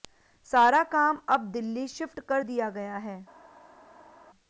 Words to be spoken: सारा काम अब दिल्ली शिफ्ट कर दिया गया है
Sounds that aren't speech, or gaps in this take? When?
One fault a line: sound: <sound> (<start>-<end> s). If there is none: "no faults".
no faults